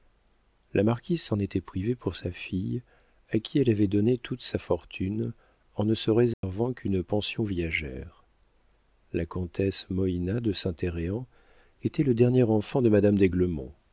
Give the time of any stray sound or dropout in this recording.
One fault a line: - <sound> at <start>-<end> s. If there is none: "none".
- dropout at 6.3-6.4 s